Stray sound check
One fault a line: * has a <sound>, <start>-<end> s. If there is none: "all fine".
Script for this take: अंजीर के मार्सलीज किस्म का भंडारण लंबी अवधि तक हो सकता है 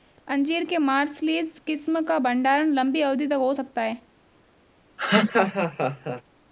* has a laugh, 5.0-6.2 s